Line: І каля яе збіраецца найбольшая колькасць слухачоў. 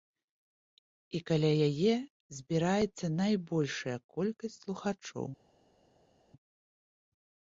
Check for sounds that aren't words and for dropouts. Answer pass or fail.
pass